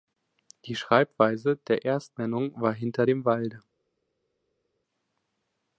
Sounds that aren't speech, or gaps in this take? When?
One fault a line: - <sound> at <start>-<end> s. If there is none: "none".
none